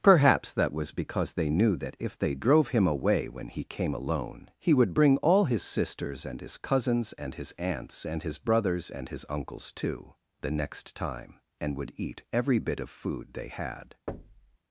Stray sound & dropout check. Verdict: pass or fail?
fail